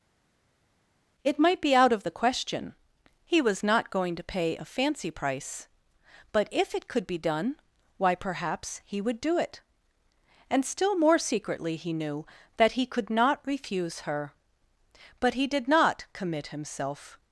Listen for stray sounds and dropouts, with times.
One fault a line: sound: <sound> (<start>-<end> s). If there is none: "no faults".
no faults